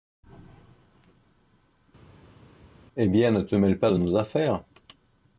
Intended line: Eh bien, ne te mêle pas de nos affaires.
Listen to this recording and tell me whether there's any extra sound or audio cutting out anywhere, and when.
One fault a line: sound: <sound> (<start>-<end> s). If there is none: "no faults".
no faults